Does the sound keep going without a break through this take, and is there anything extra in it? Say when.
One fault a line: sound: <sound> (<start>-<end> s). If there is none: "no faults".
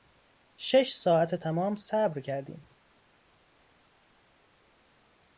no faults